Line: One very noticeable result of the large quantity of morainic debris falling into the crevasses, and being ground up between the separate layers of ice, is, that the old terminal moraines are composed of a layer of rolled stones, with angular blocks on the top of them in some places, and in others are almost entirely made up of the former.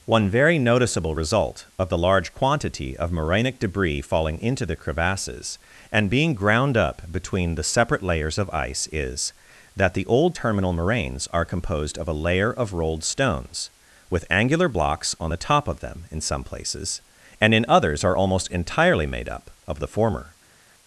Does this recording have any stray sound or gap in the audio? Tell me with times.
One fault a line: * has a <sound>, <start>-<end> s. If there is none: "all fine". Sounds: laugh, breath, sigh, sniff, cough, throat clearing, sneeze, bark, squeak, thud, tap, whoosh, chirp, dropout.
all fine